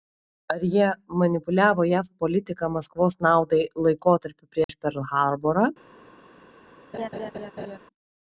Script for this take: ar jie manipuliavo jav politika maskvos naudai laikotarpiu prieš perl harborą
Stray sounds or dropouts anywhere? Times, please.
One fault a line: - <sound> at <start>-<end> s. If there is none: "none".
- dropout at 4.6-4.7 s
- laugh at 6.9-7.8 s